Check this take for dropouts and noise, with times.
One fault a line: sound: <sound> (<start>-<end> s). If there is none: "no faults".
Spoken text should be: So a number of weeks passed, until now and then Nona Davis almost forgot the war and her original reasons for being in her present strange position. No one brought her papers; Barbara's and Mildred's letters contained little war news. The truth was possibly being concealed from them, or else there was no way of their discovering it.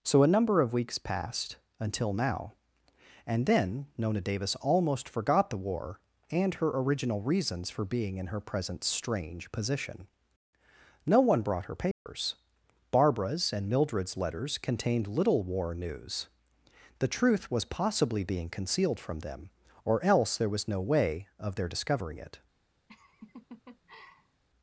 sound: dropout (11.9-12.1 s)
sound: laugh (22.9-24.4 s)